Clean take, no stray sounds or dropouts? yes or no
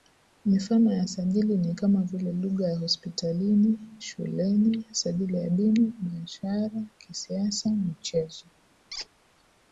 no